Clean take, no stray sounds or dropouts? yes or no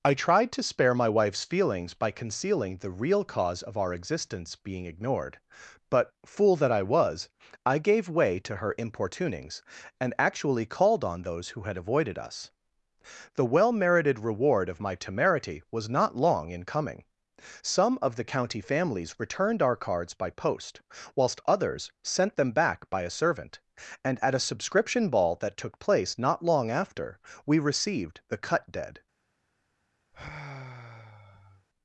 no